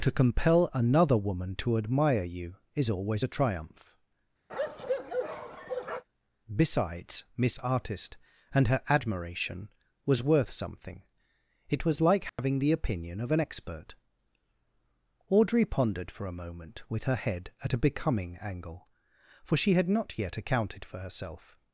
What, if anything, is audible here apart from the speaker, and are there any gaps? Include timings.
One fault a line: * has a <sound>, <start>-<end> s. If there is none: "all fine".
* has a bark, 4.5-6.0 s
* has a dropout, 12.3-12.4 s